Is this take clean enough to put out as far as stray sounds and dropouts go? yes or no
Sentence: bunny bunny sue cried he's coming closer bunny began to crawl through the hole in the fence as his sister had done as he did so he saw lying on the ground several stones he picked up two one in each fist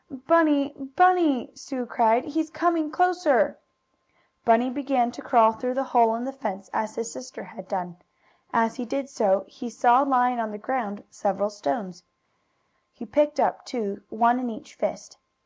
yes